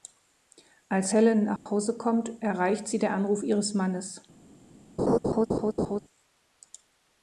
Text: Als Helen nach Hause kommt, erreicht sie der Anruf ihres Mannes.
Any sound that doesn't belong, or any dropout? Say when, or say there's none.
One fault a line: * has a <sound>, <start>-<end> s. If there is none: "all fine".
* has a dropout, 1.6-1.7 s
* has a laugh, 5.0-6.0 s